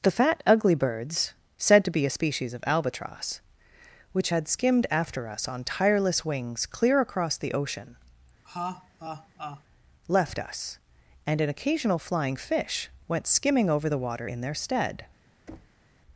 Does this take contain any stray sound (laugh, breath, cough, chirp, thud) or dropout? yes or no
yes